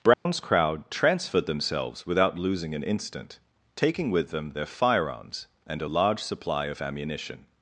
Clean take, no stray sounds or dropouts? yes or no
no